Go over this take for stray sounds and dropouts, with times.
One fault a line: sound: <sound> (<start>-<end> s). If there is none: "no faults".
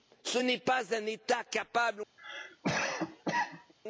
sound: cough (2.2-3.7 s)